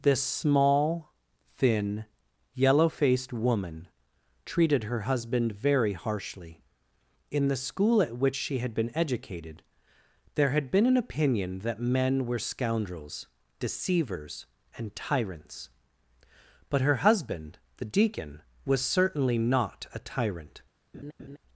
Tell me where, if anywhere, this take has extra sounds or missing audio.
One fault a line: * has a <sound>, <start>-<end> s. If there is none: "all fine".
* has a laugh, 20.9-21.4 s